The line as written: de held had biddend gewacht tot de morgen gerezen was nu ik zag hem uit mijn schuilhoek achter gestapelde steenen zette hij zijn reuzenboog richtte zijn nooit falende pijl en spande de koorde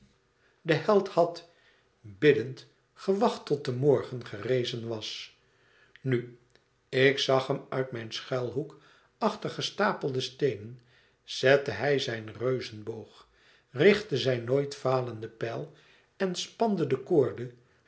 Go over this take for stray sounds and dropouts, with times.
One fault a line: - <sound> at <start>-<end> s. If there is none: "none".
none